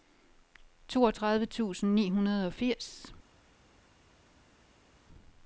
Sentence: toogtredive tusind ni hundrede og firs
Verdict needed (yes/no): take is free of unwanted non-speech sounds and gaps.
yes